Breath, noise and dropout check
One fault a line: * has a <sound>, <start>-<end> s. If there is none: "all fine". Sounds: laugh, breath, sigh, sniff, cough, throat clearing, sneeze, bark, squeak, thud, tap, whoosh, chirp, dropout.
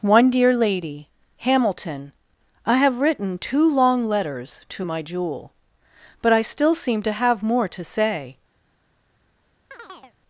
* has a chirp, 9.7-10.2 s